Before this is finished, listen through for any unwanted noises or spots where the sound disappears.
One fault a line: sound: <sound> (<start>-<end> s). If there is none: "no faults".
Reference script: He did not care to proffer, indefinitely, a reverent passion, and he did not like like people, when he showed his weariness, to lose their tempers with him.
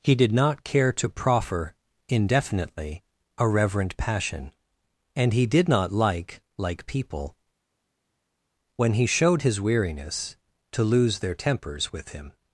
no faults